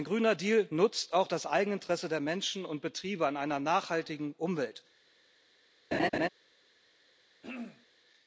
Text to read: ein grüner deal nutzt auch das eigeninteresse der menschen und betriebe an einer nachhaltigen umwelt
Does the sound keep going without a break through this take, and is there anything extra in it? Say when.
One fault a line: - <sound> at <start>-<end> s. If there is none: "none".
- laugh at 5.9-6.3 s
- throat clearing at 7.4-7.9 s